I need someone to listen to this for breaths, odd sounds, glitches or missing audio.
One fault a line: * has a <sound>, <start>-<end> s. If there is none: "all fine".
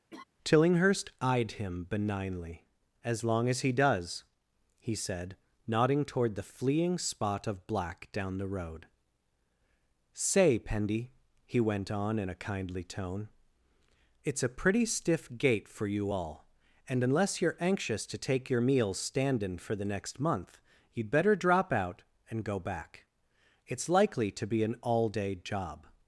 * has a laugh, 0.1-0.2 s